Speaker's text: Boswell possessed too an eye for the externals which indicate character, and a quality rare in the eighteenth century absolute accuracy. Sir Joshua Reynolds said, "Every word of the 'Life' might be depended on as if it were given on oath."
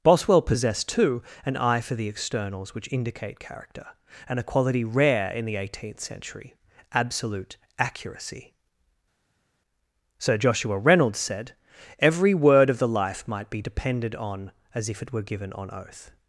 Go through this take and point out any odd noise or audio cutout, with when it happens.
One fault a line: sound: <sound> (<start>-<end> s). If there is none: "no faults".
no faults